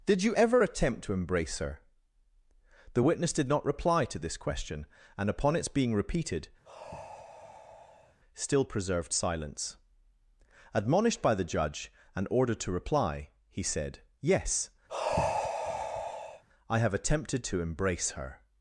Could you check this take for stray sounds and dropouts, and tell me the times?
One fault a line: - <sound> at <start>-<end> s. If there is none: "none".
- sigh at 6.6-8.2 s
- sigh at 14.9-16.4 s